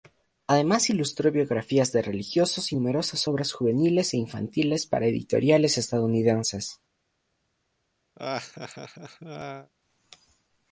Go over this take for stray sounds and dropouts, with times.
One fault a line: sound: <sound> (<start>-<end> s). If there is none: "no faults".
sound: laugh (8.2-9.7 s)